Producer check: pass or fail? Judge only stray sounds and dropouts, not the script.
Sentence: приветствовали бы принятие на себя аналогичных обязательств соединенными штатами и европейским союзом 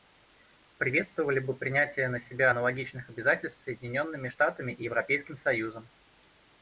pass